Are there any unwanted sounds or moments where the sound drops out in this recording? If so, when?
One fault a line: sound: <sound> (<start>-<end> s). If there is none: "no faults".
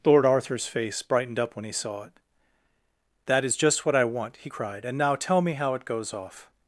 no faults